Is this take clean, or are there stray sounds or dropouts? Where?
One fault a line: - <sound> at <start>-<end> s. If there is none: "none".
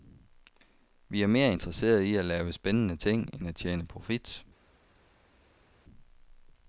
none